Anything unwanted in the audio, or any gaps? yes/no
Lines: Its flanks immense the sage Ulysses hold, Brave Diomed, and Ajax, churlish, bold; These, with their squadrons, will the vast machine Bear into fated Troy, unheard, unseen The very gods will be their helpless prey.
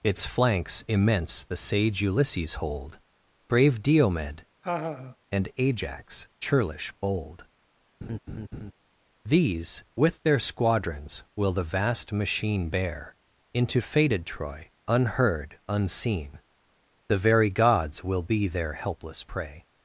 yes